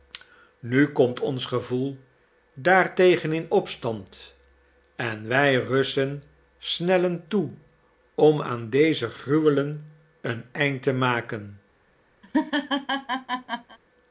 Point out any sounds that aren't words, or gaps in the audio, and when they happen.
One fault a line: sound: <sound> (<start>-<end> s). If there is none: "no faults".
sound: laugh (12.2-13.8 s)